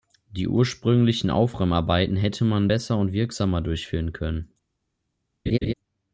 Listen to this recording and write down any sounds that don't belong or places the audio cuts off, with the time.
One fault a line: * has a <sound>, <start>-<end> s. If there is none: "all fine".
* has a laugh, 5.5-5.7 s